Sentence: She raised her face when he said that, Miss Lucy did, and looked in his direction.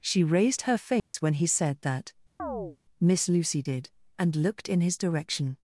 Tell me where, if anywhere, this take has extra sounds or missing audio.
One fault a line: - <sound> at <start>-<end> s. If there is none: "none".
- dropout at 1.0-1.1 s
- chirp at 2.4-2.8 s